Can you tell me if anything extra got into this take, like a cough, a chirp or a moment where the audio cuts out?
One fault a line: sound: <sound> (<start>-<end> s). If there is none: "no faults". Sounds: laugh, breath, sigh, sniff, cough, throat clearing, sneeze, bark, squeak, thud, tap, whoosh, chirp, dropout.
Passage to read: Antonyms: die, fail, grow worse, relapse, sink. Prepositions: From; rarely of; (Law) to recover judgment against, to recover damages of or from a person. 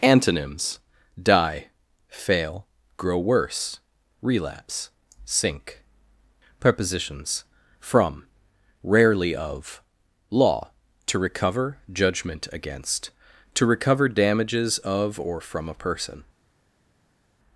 no faults